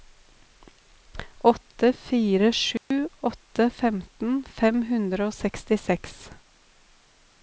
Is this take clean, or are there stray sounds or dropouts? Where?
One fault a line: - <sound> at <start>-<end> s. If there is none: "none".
- dropout at 2.8-2.9 s